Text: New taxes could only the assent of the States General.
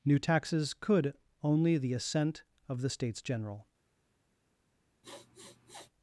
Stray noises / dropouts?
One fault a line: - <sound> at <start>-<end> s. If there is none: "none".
- sniff at 5.0-5.9 s